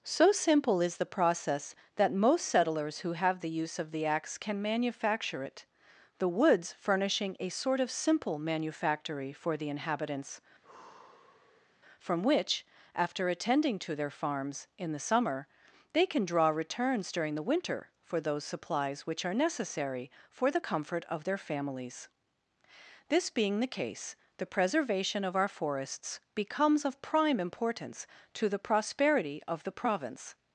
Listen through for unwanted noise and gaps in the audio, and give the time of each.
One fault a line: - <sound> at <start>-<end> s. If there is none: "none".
- sigh at 10.6-11.8 s